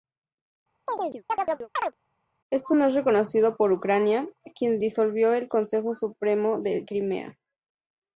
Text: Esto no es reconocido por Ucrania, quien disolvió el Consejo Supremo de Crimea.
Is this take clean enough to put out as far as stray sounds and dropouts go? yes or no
no